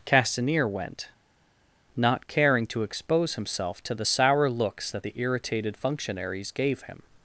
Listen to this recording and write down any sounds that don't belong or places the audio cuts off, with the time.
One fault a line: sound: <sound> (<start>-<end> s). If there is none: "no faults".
no faults